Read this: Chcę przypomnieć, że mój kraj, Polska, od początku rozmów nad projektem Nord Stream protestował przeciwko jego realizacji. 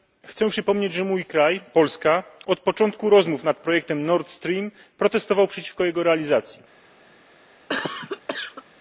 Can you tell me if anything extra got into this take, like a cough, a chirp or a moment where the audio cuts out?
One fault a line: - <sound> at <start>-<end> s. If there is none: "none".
- cough at 7.7-8.6 s